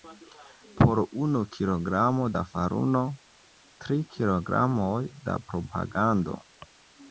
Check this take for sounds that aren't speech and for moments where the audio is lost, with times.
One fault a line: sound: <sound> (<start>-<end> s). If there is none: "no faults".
no faults